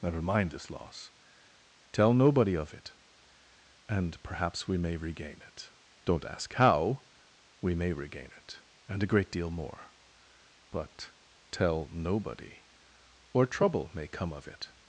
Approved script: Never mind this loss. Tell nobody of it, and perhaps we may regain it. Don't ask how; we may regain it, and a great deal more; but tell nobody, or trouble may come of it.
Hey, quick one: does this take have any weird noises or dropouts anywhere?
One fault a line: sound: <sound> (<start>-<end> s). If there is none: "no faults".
no faults